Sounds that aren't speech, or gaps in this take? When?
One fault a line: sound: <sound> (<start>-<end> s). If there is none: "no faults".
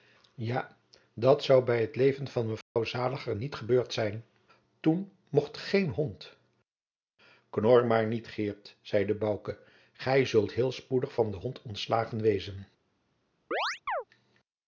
sound: dropout (2.6-2.8 s)
sound: chirp (13.5-14.0 s)